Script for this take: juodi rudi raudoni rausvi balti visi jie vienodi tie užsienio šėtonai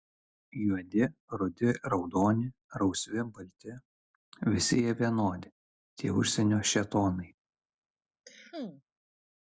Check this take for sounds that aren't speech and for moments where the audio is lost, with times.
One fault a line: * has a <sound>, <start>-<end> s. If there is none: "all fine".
* has a cough, 8.2-8.8 s